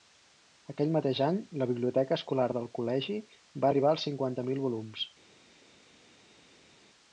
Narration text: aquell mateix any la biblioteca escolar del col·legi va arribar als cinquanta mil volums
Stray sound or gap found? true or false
false